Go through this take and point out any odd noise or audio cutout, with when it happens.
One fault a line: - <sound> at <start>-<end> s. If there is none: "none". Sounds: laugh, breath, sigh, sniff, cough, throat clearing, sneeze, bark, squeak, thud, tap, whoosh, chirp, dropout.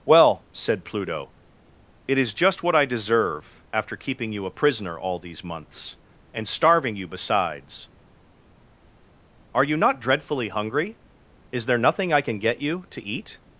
none